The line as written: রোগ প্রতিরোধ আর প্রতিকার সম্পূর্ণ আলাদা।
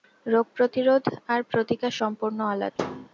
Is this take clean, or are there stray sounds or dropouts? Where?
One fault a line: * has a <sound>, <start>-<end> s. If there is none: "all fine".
* has a thud, 2.8-3.1 s